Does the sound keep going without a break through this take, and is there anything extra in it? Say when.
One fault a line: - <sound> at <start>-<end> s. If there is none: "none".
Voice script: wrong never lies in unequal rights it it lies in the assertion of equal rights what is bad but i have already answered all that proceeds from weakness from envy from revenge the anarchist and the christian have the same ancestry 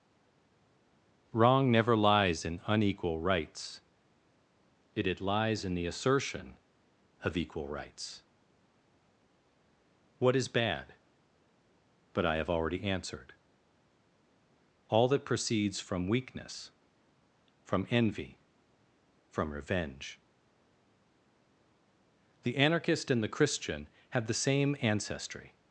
none